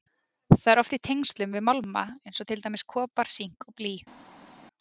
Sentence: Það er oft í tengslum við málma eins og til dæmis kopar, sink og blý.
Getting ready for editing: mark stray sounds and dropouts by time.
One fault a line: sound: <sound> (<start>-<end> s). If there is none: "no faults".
no faults